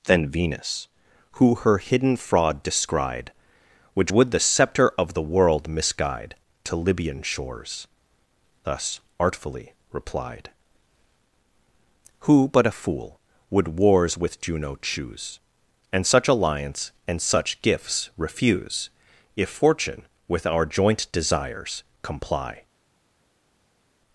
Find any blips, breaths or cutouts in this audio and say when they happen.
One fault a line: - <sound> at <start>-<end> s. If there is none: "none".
none